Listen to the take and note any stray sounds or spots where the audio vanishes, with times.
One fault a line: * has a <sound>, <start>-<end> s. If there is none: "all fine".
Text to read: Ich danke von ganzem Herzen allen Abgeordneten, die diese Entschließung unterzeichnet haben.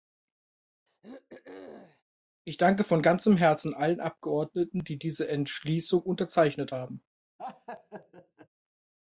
* has a throat clearing, 0.9-2.0 s
* has a laugh, 7.4-8.5 s